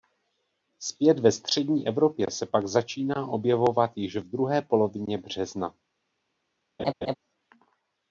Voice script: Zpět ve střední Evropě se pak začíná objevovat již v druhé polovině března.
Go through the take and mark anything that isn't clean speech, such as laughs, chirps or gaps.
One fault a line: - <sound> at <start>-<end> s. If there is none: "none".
- laugh at 6.8-7.1 s